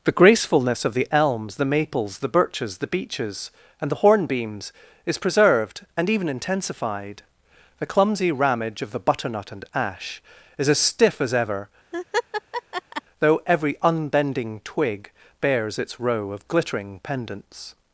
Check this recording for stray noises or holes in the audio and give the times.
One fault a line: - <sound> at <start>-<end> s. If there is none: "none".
- laugh at 11.9-13.0 s